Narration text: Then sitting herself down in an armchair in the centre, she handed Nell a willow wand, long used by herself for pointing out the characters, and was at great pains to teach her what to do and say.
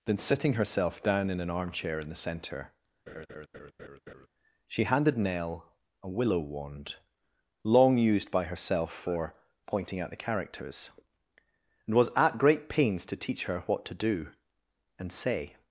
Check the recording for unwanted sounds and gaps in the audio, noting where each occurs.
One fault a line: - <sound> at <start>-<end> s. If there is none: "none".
- laugh at 3.1-4.3 s